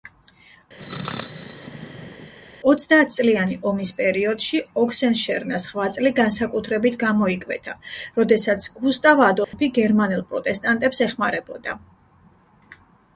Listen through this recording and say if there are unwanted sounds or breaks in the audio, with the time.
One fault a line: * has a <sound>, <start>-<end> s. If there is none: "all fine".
* has a sneeze, 0.8-2.3 s
* has a dropout, 9.4-9.5 s